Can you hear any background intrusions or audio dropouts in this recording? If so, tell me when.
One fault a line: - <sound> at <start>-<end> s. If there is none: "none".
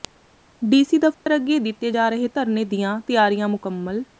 - dropout at 1.1-1.3 s